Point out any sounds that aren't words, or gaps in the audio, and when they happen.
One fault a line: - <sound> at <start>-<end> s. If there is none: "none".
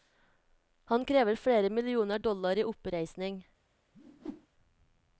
- whoosh at 3.9-4.5 s